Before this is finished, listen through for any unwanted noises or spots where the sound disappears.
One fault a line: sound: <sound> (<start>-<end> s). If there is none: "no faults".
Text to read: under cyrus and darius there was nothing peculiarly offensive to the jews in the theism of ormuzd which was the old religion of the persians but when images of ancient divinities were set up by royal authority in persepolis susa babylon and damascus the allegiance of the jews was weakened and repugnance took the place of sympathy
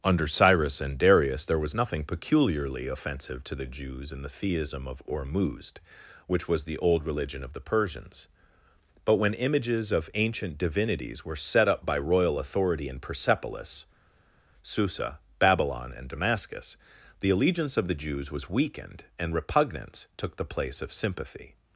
no faults